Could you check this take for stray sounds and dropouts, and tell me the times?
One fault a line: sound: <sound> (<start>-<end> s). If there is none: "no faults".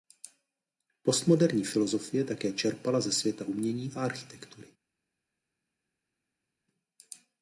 no faults